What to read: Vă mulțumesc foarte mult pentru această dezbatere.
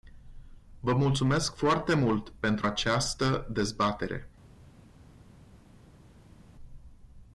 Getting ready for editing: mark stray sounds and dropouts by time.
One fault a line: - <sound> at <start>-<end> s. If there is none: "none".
none